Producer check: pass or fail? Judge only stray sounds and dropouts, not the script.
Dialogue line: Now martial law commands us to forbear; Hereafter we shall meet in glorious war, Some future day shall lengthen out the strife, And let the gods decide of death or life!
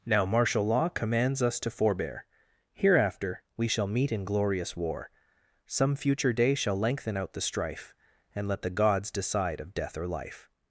pass